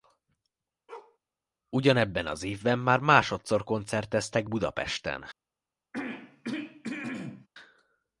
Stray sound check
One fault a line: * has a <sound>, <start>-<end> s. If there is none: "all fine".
* has a bark, 0.9-1.2 s
* has a throat clearing, 5.9-7.5 s